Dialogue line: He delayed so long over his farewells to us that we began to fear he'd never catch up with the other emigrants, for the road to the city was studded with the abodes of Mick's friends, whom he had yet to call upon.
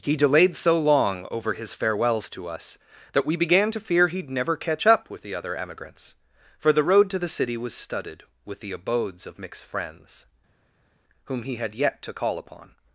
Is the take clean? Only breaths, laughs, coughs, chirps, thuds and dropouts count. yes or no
yes